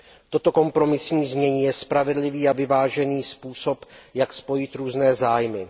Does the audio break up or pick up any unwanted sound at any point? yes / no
no